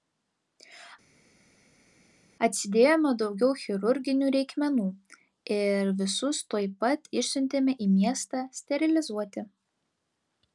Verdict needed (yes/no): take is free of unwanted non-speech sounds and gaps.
yes